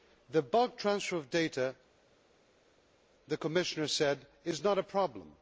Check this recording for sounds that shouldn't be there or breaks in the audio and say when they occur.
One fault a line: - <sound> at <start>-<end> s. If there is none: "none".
none